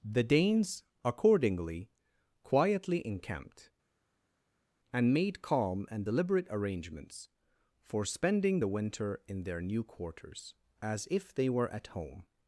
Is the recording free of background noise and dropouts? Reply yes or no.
yes